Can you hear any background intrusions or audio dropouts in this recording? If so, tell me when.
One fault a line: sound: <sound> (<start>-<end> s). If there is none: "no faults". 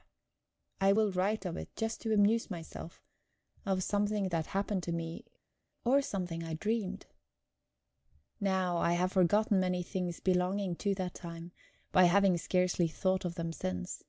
no faults